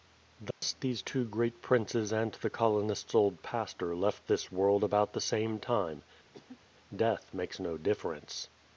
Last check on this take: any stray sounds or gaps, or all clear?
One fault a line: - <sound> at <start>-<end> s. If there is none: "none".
- dropout at 0.5-0.6 s
- cough at 6.3-6.6 s